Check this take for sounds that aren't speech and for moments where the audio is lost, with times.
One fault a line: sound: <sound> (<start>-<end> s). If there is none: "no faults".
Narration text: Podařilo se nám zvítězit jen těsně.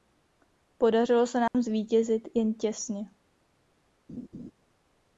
sound: dropout (1.5-1.5 s)
sound: laugh (4.1-4.5 s)